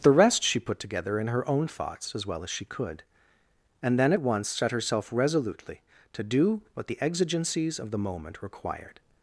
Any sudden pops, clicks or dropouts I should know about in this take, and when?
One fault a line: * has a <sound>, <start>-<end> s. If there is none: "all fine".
all fine